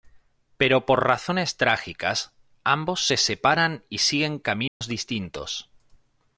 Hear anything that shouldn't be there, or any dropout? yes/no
yes